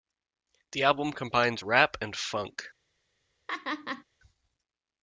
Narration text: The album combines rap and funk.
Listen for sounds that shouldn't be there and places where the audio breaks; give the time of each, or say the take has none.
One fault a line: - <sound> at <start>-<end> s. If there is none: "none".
- laugh at 3.5-4.0 s